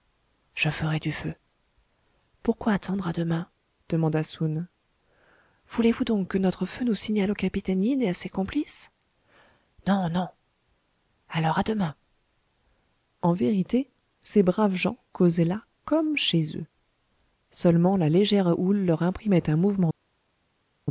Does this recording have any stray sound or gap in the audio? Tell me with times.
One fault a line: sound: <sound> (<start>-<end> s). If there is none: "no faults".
no faults